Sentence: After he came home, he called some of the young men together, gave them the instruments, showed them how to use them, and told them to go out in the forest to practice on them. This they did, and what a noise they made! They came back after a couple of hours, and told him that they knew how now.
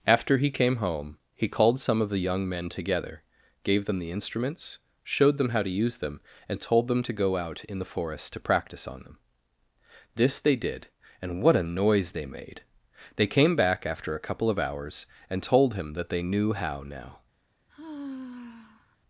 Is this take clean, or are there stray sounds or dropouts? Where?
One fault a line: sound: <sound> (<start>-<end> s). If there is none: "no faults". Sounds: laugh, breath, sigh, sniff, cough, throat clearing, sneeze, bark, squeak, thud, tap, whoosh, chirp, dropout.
sound: sigh (17.7-19.0 s)